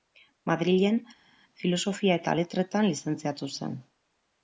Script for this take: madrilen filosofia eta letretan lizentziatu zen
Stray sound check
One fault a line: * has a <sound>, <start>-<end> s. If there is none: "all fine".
all fine